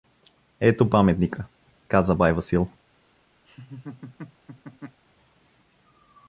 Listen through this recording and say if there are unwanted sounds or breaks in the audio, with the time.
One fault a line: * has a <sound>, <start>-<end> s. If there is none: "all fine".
* has a laugh, 3.5-5.0 s